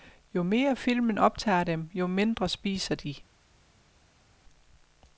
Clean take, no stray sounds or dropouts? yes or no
yes